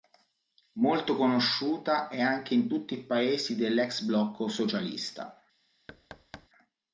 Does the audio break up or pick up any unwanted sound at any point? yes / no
yes